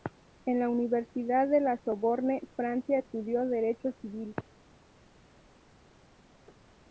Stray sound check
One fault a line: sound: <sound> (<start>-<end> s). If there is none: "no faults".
no faults